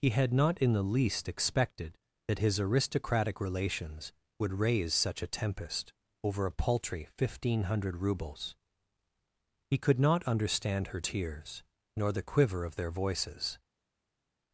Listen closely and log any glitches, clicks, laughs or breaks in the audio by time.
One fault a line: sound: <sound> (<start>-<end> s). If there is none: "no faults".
no faults